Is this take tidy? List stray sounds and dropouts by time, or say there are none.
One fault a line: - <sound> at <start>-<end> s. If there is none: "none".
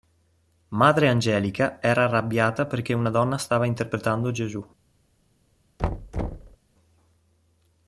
- thud at 5.8-6.6 s